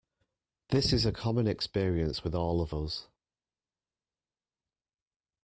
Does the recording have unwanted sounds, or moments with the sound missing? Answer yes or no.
no